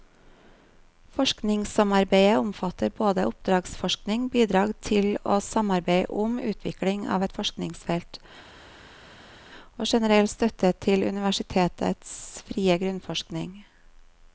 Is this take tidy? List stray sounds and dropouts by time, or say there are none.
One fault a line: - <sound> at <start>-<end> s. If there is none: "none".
none